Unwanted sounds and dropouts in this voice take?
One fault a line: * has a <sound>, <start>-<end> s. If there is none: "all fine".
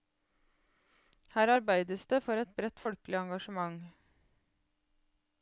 all fine